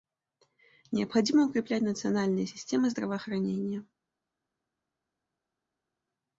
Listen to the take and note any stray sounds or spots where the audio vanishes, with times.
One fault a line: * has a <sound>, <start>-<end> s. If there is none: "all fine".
all fine